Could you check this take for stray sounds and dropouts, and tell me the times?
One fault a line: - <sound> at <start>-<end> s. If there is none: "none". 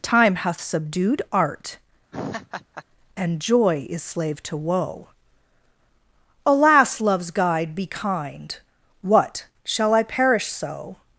- laugh at 2.1-2.8 s